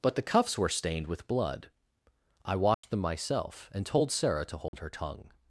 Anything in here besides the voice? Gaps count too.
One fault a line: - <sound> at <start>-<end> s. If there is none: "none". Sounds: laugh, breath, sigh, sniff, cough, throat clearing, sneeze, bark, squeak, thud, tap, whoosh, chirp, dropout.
- dropout at 2.7-2.8 s
- dropout at 4.7-4.7 s